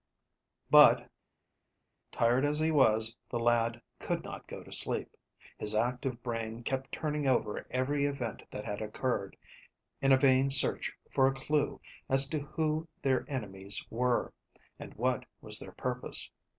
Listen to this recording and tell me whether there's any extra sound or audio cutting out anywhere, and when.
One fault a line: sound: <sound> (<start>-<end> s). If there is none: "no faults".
no faults